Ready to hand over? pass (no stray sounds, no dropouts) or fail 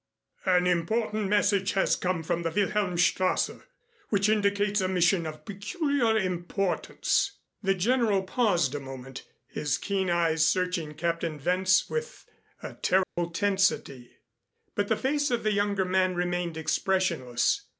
fail